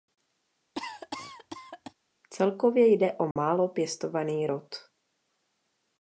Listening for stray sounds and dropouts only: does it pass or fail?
fail